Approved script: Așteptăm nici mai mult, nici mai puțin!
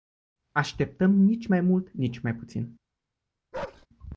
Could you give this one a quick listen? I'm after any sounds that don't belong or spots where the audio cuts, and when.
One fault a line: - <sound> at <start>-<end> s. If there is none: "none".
- bark at 3.5-3.9 s